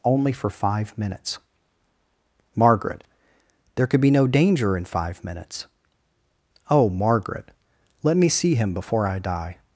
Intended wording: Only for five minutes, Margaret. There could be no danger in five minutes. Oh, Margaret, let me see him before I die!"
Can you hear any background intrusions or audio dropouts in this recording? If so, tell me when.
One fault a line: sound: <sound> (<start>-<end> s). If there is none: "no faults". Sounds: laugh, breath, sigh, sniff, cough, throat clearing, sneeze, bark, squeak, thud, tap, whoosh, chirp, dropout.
no faults